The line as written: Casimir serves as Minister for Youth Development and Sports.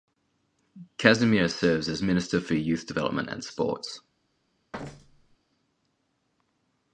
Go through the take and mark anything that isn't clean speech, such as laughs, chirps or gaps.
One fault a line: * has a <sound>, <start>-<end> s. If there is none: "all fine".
* has a thud, 4.7-5.4 s